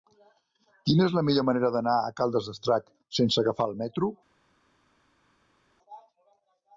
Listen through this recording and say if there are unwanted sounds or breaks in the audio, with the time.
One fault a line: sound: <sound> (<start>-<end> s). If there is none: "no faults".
no faults